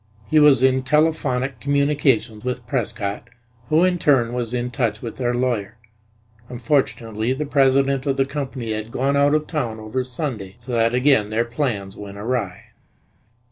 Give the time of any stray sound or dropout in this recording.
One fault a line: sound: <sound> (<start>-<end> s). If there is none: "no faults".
no faults